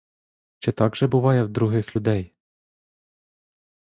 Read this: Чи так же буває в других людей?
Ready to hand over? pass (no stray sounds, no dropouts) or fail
pass